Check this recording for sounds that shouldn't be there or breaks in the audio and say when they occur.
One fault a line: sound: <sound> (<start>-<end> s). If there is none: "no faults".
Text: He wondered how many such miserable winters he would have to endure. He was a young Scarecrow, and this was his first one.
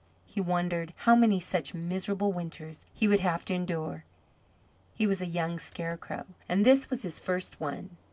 no faults